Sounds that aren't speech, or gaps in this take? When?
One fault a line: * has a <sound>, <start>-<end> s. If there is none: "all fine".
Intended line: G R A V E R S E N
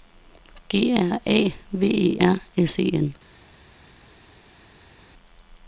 all fine